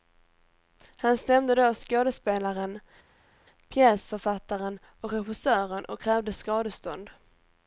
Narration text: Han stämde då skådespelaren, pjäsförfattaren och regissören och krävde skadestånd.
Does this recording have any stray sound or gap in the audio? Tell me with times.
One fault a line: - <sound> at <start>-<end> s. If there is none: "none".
none